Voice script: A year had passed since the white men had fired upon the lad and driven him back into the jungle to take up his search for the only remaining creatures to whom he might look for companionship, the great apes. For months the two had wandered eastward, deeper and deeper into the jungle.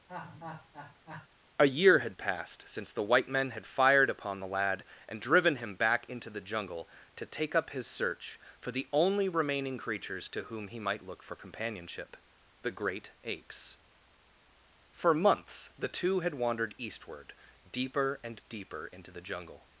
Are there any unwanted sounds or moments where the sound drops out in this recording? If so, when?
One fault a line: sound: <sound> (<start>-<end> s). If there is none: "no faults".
sound: laugh (0.1-1.3 s)